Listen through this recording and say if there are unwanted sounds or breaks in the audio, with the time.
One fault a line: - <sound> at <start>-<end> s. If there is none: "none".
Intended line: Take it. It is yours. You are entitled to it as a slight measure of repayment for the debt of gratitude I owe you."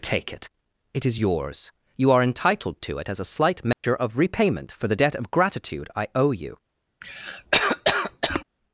- dropout at 3.7-3.8 s
- cough at 7.0-8.4 s